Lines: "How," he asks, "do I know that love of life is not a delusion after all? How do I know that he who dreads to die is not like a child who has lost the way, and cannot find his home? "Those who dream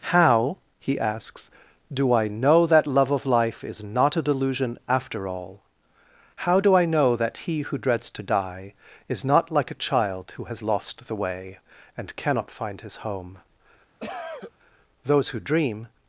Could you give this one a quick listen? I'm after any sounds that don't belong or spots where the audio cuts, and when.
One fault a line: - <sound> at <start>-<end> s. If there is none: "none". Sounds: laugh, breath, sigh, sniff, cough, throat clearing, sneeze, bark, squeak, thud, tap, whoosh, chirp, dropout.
- cough at 14.0-14.5 s